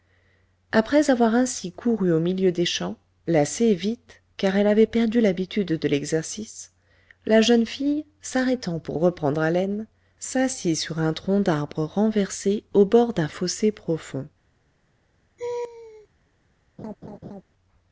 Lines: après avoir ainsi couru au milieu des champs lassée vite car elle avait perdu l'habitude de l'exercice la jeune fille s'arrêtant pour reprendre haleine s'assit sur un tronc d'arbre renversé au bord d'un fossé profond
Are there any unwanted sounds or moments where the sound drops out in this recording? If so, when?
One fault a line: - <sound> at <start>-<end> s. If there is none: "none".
- laugh at 15.4-16.1 s
- laugh at 16.8-17.4 s